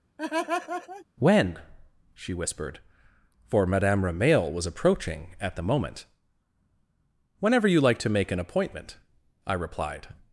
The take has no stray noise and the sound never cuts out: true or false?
false